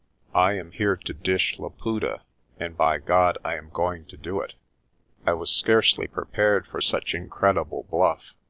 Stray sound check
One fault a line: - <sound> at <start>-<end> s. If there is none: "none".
none